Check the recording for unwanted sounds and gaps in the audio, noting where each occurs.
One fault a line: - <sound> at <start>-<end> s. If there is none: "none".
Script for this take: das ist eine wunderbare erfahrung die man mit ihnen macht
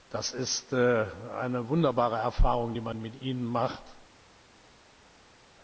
none